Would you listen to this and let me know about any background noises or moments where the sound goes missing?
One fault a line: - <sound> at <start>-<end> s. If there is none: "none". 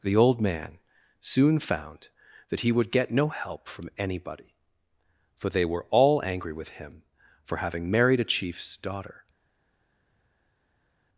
none